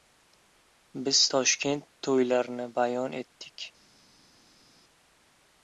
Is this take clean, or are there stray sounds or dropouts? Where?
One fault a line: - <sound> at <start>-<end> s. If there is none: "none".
none